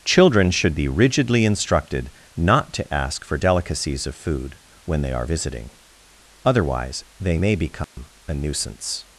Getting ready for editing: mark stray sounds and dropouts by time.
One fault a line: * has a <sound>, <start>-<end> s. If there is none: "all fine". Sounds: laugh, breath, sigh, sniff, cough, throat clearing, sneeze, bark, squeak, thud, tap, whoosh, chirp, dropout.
* has a dropout, 7.8-8.0 s